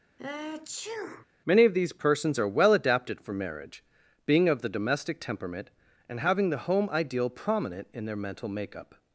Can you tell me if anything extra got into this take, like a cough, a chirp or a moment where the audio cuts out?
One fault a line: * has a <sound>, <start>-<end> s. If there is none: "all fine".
* has a sneeze, 0.2-1.3 s